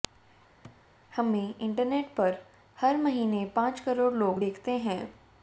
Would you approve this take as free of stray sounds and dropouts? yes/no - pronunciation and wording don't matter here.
no